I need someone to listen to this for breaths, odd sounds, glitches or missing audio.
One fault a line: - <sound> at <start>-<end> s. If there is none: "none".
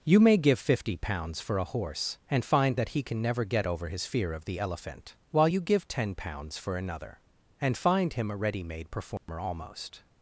- dropout at 9.2-9.3 s